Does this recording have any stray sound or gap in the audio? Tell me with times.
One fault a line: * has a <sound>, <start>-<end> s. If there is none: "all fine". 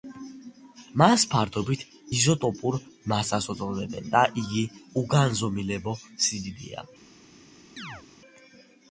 * has a chirp, 7.8-8.0 s